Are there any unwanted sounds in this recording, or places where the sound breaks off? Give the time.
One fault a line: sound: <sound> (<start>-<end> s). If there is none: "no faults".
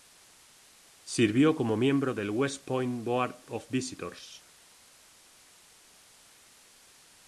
no faults